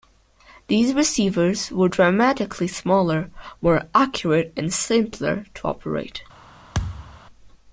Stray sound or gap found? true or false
true